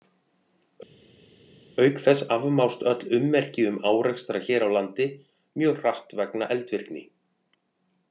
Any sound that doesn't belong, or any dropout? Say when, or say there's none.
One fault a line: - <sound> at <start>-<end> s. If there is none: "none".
none